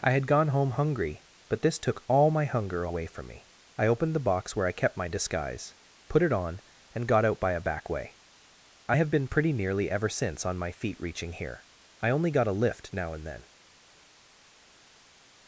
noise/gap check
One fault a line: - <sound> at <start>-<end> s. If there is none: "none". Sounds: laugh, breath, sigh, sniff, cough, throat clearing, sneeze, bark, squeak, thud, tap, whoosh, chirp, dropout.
none